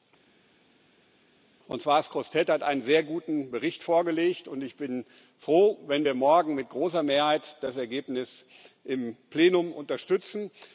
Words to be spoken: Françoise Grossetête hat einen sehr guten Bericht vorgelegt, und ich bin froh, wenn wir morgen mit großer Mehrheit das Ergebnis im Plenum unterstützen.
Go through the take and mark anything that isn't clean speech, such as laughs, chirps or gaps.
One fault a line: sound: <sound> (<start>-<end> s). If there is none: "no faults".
no faults